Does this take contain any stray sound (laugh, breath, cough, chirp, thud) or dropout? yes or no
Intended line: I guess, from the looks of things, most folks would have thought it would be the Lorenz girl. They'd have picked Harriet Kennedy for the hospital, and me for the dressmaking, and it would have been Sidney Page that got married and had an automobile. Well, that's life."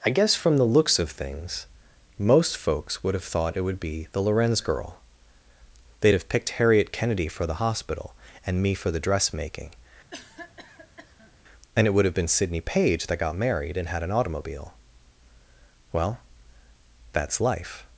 yes